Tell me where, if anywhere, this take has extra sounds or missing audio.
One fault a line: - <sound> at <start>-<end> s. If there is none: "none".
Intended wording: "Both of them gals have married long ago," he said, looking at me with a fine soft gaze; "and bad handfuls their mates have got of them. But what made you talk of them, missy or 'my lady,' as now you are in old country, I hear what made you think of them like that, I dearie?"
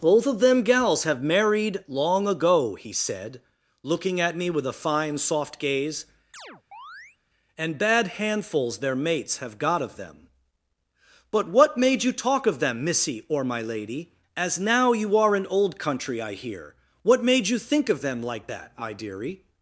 - chirp at 6.3-7.2 s